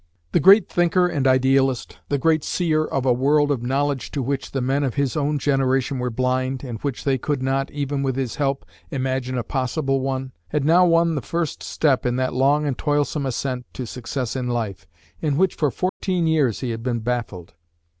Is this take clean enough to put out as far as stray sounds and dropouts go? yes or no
no